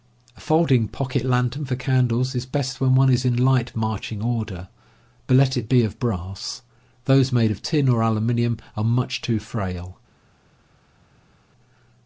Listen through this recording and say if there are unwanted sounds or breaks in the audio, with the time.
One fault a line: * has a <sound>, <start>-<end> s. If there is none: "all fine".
all fine